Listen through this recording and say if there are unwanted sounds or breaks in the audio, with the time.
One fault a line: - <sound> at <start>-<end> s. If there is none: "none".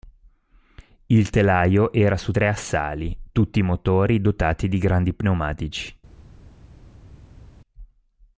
none